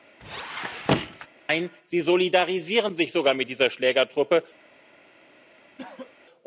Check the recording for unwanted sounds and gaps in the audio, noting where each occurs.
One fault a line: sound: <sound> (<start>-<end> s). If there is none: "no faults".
sound: squeak (0.2-1.3 s)
sound: cough (5.8-6.2 s)